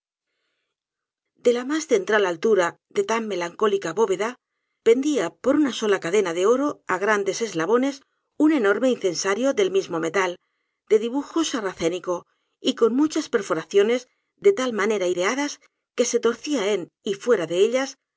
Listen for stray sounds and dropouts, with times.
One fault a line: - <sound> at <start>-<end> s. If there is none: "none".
none